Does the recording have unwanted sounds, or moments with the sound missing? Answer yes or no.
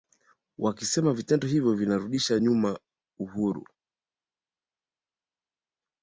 no